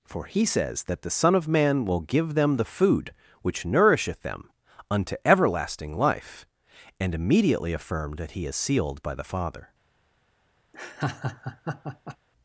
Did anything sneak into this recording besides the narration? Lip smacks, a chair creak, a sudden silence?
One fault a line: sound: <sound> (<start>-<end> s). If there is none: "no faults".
sound: laugh (10.7-12.2 s)